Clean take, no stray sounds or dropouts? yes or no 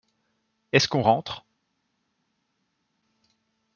yes